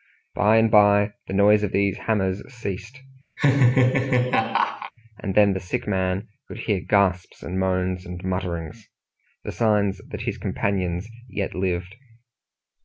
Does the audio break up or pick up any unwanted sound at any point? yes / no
yes